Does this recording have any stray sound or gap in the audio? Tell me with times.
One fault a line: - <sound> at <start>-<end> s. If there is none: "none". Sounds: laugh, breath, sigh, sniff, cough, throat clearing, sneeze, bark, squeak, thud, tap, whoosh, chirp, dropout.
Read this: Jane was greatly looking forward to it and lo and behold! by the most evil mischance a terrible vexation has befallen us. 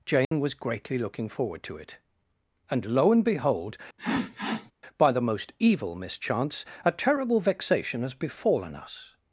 - dropout at 0.2-0.3 s
- sniff at 4.0-4.7 s